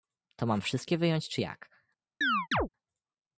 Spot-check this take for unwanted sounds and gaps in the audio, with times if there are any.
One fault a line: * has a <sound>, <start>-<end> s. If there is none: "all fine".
* has a chirp, 2.2-2.7 s